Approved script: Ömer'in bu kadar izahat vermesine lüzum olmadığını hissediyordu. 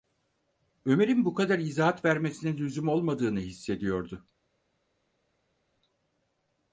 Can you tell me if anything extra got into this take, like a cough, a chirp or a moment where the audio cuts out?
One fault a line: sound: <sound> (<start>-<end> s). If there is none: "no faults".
no faults